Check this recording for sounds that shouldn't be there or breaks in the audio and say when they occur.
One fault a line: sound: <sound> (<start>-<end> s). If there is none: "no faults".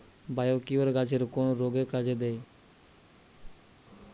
sound: whoosh (3.4-3.7 s)